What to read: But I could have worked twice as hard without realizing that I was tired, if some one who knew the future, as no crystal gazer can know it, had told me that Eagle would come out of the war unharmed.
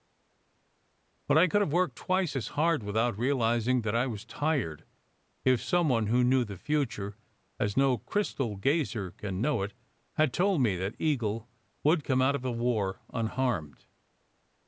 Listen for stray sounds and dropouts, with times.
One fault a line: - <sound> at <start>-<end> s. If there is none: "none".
none